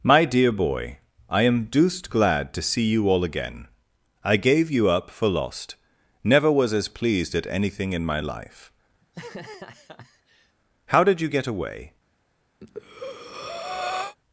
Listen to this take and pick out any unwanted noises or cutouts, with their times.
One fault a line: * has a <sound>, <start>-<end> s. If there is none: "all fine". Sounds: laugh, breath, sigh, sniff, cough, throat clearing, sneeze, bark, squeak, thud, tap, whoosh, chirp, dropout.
* has a laugh, 9.0-10.6 s
* has a breath, 12.6-14.2 s